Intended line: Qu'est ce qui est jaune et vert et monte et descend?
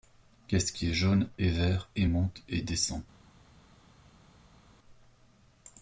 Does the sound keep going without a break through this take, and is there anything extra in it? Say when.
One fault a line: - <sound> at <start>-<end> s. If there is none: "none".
none